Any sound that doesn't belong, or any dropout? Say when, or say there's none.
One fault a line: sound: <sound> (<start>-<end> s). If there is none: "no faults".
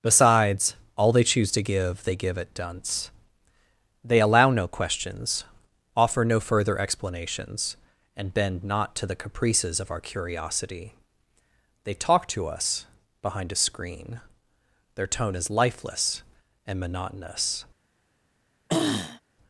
sound: throat clearing (18.7-19.2 s)